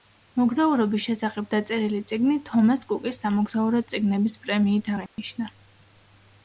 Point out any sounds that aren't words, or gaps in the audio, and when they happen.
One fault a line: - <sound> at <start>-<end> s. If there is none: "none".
- dropout at 5.1-5.2 s